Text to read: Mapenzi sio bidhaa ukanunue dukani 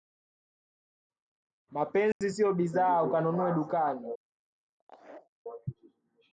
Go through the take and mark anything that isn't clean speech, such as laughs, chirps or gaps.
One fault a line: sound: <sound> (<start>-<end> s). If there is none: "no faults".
sound: dropout (2.1-2.2 s)
sound: laugh (4.8-5.3 s)